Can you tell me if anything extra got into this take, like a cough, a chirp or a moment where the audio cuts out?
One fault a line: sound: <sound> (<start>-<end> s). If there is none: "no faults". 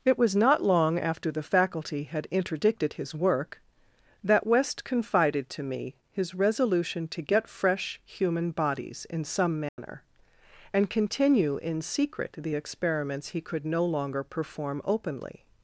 sound: dropout (9.7-9.8 s)